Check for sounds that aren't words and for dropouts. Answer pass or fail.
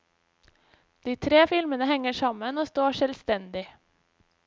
pass